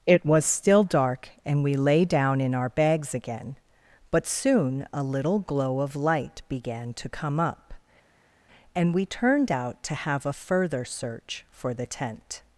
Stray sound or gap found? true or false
false